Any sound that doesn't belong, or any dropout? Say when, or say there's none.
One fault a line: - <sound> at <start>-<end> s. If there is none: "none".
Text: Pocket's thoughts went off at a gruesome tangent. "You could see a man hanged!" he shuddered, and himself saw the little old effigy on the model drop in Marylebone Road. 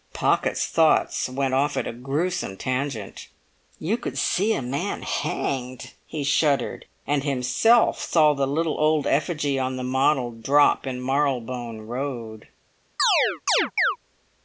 - chirp at 13.0-14.0 s